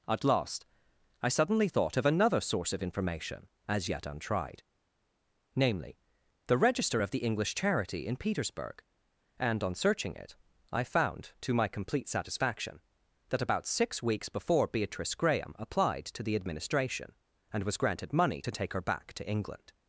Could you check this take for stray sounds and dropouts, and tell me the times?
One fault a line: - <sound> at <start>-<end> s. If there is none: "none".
none